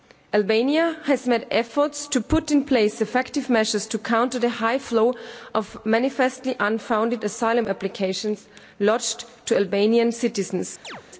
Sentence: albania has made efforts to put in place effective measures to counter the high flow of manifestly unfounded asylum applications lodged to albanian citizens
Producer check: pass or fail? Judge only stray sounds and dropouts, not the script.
fail